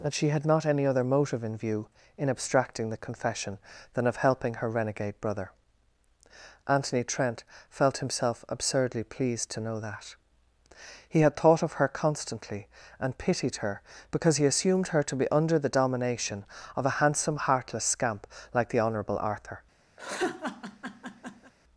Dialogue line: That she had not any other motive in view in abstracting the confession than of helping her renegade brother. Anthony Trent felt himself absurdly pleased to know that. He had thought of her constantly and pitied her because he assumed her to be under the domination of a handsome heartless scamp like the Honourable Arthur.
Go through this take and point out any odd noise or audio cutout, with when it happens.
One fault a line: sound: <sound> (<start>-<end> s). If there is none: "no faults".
sound: laugh (20.0-21.5 s)